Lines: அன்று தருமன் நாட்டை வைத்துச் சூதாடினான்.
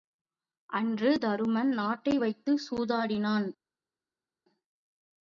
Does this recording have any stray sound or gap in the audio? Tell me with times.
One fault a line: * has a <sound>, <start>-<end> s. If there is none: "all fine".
all fine